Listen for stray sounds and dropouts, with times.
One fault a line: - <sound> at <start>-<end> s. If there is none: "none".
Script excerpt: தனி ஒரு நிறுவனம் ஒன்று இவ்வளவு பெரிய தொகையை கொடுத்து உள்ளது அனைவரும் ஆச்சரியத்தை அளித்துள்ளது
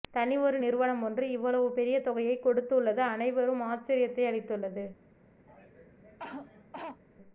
- cough at 5.5-7.0 s